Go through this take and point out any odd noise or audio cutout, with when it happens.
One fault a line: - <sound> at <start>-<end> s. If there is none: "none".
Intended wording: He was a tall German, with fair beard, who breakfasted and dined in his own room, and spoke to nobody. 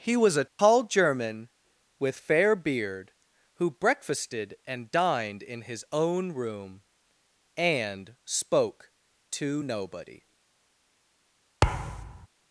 - dropout at 0.5-0.6 s
- thud at 11.6-12.3 s